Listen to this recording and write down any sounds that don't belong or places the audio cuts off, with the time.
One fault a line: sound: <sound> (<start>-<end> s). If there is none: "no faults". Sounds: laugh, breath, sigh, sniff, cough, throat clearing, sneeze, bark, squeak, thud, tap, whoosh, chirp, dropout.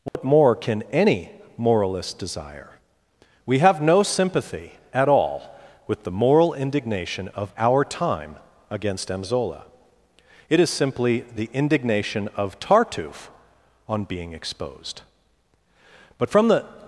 sound: dropout (0.1-0.1 s)